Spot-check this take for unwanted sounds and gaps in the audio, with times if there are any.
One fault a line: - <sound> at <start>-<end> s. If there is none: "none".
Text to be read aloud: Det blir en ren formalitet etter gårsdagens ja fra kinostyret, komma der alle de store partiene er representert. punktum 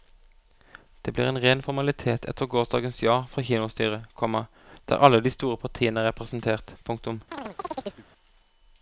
- chirp at 7.3-8.1 s